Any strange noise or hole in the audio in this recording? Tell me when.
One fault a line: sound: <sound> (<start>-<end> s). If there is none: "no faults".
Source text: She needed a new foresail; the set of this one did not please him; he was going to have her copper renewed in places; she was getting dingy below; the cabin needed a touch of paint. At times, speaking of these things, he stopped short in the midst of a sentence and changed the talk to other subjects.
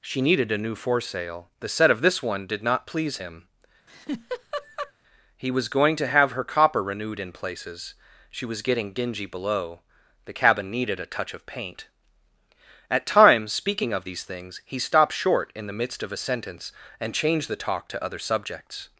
sound: laugh (3.9-4.9 s)